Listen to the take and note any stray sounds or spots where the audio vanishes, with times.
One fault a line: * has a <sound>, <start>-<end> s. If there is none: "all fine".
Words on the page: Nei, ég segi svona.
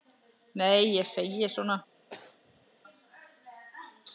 * has a throat clearing, 2.1-2.7 s